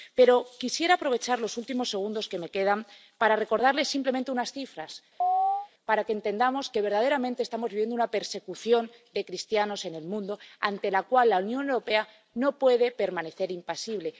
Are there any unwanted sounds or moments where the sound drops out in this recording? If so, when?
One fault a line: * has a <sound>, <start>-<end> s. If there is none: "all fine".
* has a chirp, 5.2-5.7 s